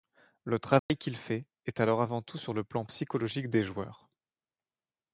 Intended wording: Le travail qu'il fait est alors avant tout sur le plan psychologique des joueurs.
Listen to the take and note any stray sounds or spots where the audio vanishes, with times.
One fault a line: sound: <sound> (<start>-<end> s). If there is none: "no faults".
sound: dropout (0.8-0.9 s)